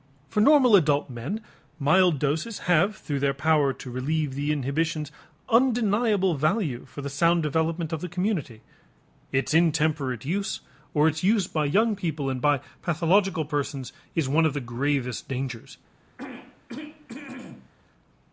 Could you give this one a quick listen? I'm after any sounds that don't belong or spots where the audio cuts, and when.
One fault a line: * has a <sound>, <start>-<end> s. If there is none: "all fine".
* has a throat clearing, 16.2-17.7 s